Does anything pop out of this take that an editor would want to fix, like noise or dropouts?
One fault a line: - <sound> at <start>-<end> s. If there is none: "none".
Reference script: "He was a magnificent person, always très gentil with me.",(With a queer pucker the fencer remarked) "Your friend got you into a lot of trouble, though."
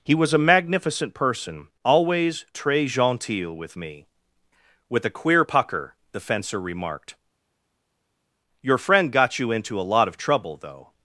none